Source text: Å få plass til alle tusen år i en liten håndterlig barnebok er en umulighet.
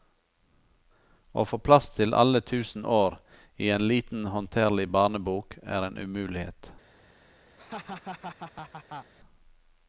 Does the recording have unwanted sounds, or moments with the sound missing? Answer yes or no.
yes